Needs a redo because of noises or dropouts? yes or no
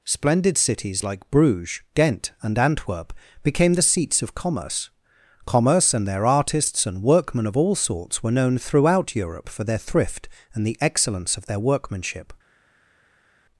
no